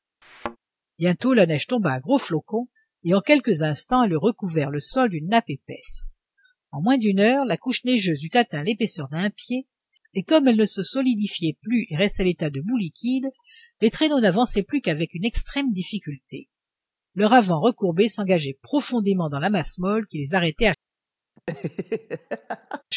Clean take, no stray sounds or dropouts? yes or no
no